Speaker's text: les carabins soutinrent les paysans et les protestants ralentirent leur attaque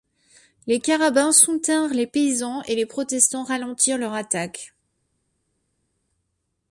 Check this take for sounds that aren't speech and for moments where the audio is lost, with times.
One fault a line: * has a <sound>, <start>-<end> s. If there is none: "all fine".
all fine